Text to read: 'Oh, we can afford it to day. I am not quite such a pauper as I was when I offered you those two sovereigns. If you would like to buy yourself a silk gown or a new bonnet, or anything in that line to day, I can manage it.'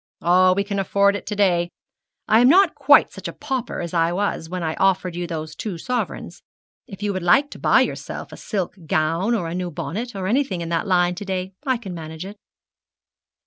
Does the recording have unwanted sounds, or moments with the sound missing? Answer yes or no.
no